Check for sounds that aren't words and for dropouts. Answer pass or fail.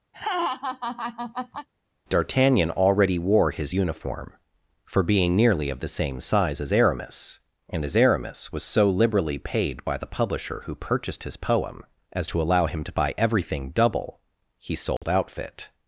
fail